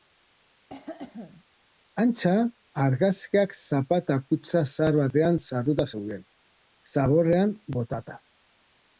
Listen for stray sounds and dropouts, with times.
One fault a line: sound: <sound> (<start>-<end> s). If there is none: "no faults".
sound: cough (0.7-1.4 s)